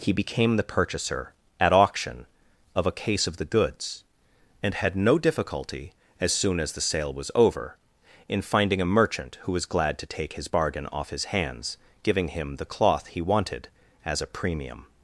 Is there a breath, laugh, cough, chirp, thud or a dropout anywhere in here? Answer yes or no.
no